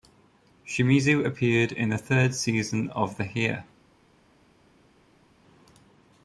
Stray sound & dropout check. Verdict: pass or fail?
pass